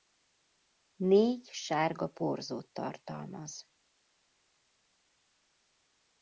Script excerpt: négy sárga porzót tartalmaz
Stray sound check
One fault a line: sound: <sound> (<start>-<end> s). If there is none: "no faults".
no faults